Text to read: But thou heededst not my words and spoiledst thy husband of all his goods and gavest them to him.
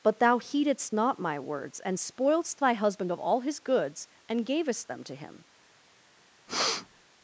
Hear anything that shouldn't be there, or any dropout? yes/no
yes